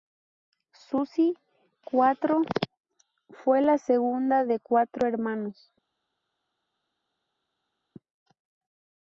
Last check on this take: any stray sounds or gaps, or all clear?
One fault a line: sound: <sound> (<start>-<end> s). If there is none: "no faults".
no faults